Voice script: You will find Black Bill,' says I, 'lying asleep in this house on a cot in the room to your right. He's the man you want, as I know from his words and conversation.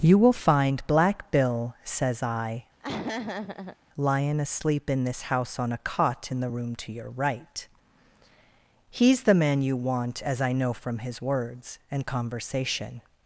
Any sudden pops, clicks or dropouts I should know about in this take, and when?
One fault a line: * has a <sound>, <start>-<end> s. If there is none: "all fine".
* has a laugh, 2.8-3.8 s